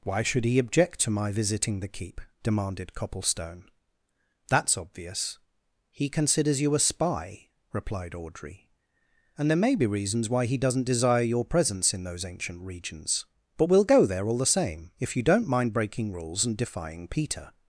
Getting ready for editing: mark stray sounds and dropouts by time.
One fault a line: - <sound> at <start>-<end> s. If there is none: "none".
none